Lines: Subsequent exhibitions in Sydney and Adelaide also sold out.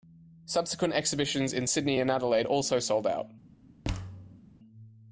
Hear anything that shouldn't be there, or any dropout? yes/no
yes